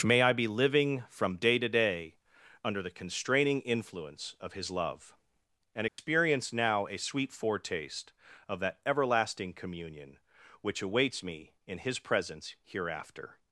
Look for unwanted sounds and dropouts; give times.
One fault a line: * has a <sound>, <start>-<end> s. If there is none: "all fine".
* has a dropout, 5.9-6.0 s